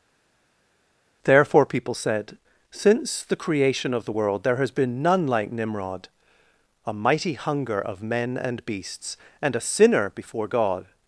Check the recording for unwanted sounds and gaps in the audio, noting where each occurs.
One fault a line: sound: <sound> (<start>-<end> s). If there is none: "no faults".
no faults